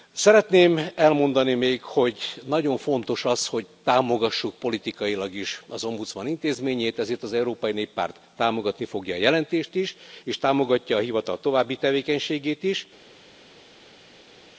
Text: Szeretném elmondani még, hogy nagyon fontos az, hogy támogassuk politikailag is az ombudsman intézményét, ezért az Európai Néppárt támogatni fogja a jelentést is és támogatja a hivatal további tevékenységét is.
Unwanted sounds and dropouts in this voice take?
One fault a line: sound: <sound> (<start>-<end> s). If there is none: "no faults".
no faults